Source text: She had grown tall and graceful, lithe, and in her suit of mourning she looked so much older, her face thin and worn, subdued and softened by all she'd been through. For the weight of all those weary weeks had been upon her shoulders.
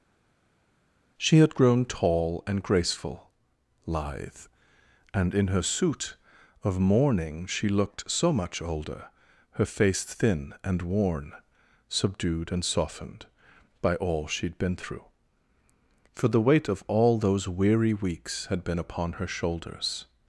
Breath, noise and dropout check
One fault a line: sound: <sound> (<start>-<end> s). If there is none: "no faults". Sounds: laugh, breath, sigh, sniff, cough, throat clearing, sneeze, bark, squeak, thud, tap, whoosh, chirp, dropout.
no faults